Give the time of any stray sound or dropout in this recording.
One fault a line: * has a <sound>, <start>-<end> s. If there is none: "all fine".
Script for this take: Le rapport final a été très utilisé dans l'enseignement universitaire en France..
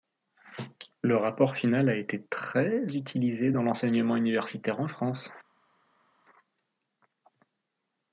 all fine